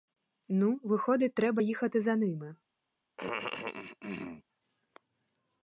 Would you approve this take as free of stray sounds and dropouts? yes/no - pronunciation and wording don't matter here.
no